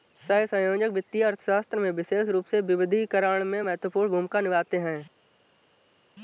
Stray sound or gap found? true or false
false